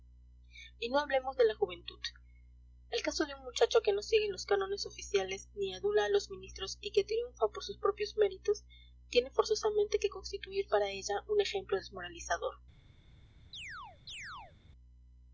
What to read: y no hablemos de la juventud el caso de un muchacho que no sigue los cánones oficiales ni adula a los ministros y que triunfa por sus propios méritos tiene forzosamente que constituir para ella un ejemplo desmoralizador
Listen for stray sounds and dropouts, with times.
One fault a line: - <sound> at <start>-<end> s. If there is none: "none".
- chirp at 13.5-14.6 s